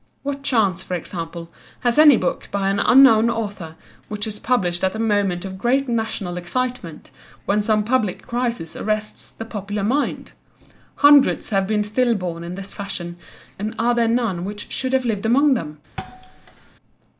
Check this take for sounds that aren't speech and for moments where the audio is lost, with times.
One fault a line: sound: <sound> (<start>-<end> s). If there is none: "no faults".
sound: thud (16.0-16.7 s)